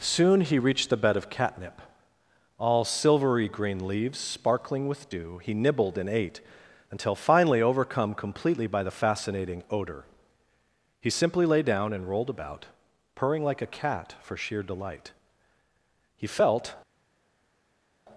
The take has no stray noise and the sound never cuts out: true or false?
true